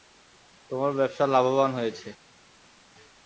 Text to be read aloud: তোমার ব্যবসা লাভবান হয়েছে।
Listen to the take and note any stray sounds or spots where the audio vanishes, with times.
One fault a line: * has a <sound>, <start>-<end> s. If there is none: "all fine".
all fine